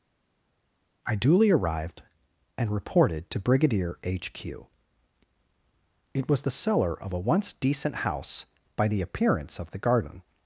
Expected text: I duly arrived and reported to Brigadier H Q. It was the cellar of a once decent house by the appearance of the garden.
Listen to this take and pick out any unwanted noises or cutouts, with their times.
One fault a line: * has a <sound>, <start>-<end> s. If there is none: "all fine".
all fine